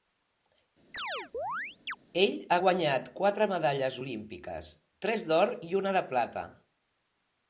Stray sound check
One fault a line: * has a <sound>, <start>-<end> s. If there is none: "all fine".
* has a chirp, 0.9-2.0 s